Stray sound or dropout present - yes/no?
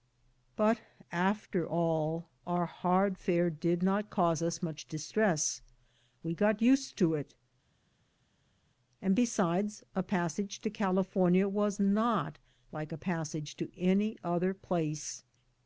no